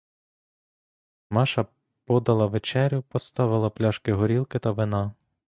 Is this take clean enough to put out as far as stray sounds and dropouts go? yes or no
yes